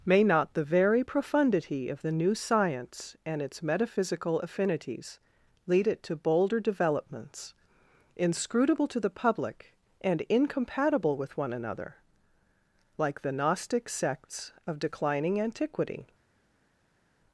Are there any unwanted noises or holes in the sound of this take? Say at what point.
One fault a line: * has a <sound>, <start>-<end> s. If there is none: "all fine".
all fine